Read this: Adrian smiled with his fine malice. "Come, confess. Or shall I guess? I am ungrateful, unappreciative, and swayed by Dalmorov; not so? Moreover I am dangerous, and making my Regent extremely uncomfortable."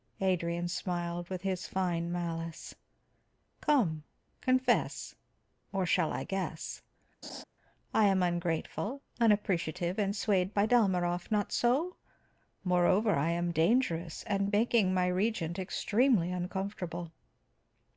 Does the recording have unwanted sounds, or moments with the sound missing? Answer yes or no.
yes